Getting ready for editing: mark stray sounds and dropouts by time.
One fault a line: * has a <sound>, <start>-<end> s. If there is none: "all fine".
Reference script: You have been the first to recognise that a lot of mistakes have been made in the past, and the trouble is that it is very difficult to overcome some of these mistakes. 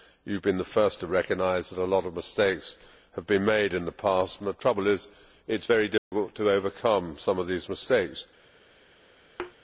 * has a dropout, 6.0-6.1 s
* has a thud, 9.4-9.5 s